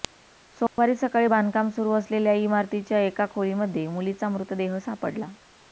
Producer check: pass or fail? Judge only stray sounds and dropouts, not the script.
fail